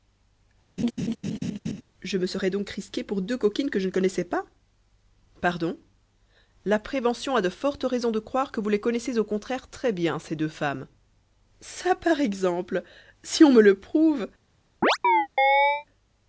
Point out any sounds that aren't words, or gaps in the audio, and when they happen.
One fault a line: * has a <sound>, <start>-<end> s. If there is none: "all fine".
* has a laugh, 0.8-1.8 s
* has a chirp, 14.8-15.9 s